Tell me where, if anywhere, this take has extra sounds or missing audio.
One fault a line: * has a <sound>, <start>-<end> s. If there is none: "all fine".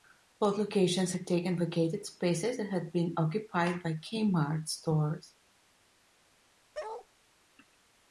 * has a bark, 6.7-7.1 s